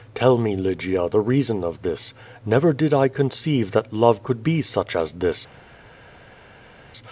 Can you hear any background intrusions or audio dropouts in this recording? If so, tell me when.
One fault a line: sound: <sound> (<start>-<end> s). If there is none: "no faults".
no faults